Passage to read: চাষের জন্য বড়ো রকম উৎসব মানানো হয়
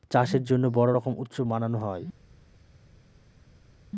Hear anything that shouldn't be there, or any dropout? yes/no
no